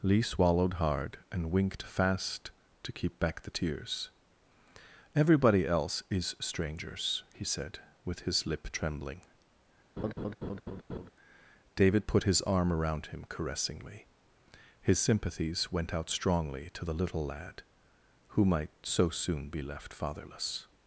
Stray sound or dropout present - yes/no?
yes